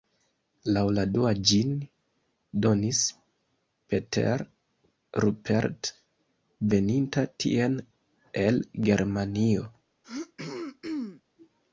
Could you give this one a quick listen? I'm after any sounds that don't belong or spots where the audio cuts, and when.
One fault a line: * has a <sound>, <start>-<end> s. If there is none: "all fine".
* has a throat clearing, 10.0-11.2 s